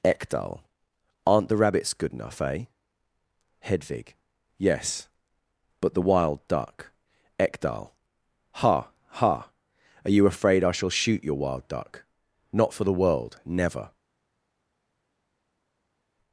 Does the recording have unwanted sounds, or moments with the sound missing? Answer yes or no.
no